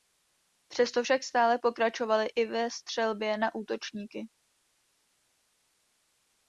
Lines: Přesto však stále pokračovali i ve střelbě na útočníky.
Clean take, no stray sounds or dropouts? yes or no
yes